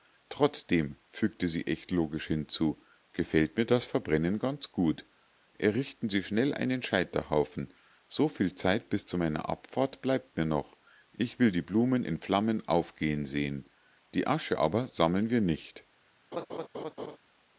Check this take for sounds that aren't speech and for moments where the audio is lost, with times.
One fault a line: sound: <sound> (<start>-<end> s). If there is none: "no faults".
sound: laugh (16.3-17.2 s)